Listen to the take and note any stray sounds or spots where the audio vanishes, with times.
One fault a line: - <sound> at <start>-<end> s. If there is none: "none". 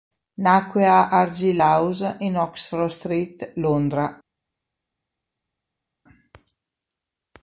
none